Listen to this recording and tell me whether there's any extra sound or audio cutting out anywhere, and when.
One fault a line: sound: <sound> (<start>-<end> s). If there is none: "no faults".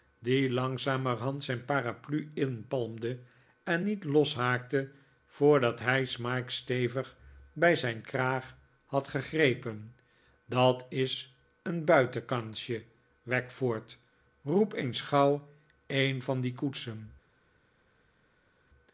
no faults